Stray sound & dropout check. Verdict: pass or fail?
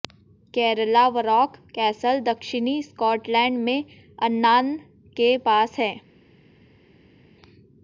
pass